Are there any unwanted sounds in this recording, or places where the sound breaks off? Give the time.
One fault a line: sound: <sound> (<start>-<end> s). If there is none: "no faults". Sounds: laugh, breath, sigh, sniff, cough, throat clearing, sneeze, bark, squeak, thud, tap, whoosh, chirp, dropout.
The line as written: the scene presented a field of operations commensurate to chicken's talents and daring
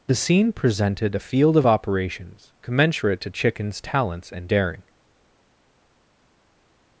no faults